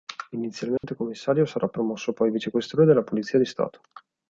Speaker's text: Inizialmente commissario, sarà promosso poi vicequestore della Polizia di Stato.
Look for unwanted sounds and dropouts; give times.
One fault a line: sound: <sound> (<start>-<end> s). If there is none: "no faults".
sound: dropout (0.8-0.8 s)